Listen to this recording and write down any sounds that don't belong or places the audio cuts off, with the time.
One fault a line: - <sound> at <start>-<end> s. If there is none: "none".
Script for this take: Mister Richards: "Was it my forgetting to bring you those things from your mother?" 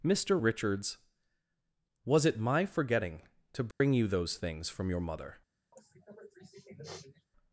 - dropout at 3.7-3.8 s
- sniff at 5.7-7.3 s